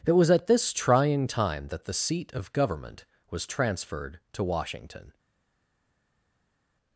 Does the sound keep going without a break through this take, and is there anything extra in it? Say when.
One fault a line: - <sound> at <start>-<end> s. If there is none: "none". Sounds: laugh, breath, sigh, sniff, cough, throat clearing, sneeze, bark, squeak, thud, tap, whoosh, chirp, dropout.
none